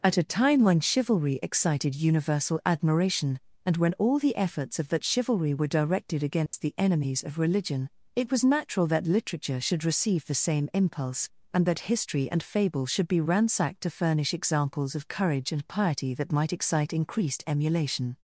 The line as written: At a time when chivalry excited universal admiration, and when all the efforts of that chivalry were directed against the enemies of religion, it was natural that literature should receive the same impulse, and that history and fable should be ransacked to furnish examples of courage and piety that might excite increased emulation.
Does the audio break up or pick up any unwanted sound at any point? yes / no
yes